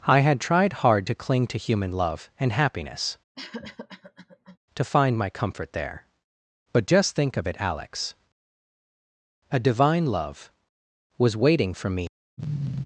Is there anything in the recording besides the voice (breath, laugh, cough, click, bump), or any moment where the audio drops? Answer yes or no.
yes